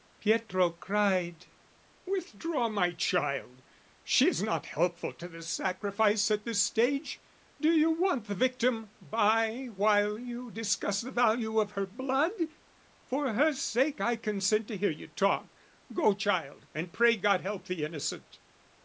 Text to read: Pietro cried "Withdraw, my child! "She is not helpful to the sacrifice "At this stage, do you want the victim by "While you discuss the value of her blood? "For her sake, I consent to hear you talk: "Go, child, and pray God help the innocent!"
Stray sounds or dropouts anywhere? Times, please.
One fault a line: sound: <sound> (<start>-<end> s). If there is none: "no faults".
no faults